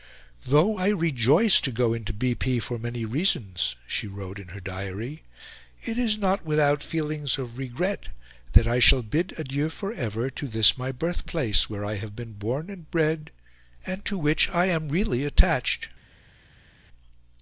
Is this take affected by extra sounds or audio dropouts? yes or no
no